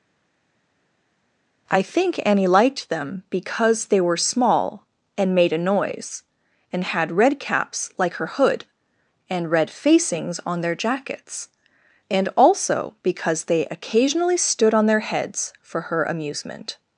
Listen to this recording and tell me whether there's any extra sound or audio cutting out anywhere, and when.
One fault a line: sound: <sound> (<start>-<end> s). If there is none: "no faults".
no faults